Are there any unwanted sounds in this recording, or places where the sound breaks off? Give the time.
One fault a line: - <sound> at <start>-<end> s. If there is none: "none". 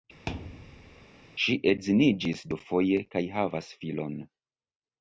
- thud at 0.3-1.1 s